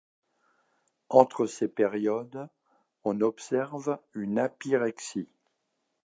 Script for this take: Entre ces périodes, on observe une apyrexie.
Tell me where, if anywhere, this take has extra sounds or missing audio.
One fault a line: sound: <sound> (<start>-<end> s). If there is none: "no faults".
no faults